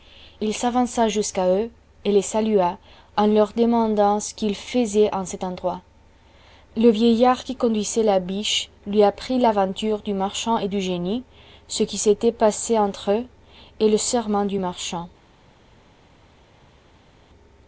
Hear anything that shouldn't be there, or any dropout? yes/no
no